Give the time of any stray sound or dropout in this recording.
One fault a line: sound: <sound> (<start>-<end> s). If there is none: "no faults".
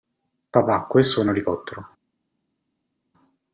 no faults